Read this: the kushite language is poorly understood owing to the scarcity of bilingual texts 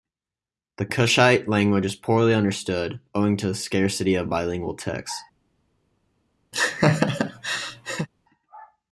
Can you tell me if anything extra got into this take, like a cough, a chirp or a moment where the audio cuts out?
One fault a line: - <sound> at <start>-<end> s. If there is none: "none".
- laugh at 6.5-8.1 s